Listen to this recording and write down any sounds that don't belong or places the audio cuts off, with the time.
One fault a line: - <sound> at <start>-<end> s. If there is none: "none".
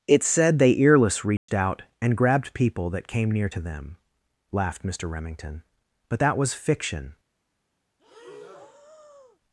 - dropout at 1.4-1.5 s
- breath at 8.0-9.4 s